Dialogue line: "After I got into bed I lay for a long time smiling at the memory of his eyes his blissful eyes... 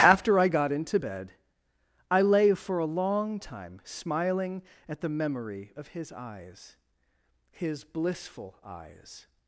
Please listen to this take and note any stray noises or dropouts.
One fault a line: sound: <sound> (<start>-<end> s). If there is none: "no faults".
no faults